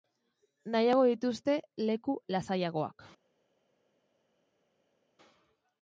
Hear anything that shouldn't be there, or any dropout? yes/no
no